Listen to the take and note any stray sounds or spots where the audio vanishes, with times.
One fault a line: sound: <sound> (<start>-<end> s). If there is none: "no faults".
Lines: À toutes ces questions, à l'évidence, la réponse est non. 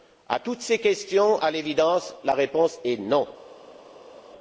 no faults